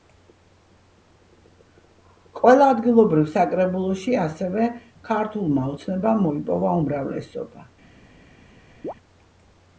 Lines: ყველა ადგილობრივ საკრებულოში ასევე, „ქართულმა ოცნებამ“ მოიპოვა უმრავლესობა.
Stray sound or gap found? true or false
true